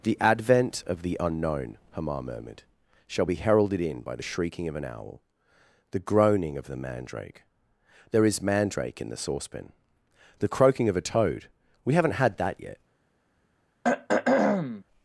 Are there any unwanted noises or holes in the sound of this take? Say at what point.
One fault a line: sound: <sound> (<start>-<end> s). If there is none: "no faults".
sound: throat clearing (13.8-14.8 s)